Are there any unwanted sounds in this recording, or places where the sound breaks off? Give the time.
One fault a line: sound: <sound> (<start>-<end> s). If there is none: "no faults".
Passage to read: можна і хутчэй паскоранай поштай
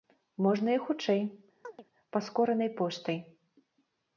sound: chirp (1.6-1.8 s)